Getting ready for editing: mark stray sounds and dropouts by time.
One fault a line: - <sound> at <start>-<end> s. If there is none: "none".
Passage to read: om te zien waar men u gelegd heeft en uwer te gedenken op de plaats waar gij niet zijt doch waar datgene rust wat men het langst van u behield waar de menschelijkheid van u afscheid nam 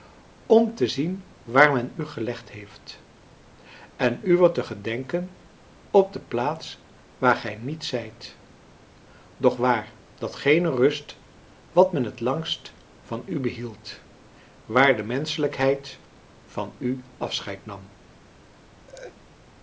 - laugh at 18.9-19.2 s